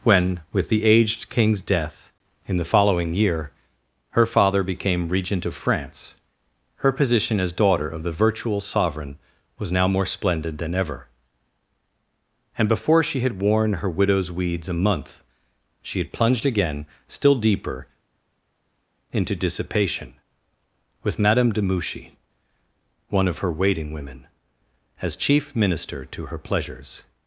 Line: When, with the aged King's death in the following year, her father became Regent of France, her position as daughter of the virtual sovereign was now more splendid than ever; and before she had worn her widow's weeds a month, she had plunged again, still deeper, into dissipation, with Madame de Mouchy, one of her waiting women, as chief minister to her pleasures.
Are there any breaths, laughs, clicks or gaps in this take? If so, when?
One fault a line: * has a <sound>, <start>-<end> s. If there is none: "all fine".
all fine